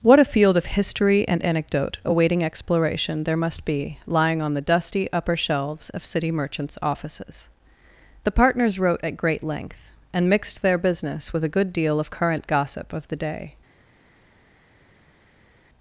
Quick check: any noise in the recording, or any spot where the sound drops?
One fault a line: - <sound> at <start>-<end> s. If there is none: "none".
none